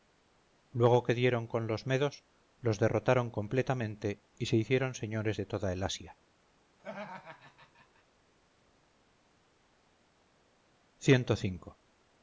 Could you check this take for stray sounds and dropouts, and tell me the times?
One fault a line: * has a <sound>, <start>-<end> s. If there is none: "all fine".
* has a laugh, 6.8-8.0 s